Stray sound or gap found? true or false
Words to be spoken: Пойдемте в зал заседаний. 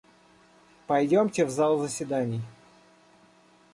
false